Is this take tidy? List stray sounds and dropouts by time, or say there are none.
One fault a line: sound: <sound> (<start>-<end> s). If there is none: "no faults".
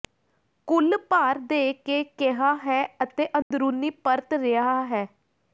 sound: dropout (3.4-3.5 s)